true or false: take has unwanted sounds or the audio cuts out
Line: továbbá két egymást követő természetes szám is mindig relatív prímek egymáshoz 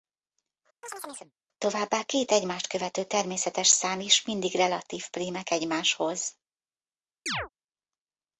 true